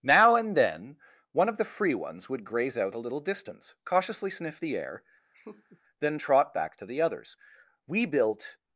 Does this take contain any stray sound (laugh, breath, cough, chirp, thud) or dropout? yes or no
yes